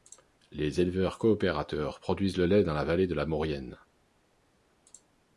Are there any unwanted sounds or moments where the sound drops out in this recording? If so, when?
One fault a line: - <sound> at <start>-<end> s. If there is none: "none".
none